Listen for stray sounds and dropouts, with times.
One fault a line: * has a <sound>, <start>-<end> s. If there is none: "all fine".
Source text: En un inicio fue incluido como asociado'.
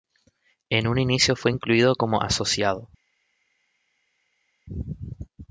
all fine